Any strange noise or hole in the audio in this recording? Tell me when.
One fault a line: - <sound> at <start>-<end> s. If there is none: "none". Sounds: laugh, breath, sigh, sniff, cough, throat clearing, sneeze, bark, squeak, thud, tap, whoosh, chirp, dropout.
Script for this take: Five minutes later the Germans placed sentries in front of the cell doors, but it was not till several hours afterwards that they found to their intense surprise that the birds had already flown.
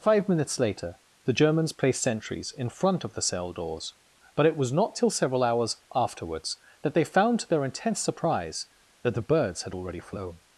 none